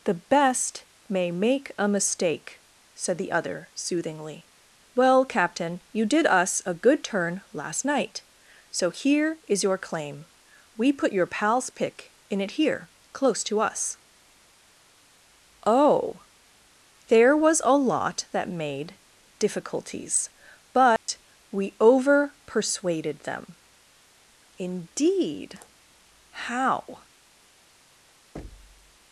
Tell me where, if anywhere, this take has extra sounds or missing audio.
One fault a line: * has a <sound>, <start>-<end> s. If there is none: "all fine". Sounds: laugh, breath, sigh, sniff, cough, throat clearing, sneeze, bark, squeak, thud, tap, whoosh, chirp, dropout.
* has a dropout, 21.0-21.1 s
* has a thud, 28.3-29.0 s